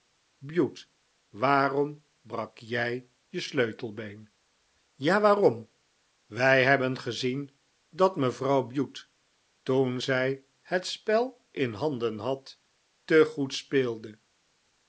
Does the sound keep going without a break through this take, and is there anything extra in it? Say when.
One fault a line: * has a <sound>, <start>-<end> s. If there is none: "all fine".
all fine